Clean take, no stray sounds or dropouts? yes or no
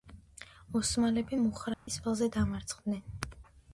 no